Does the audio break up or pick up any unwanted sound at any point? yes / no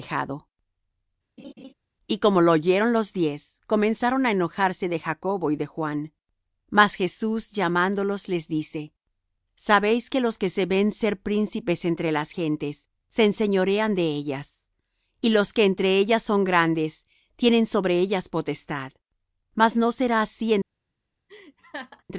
yes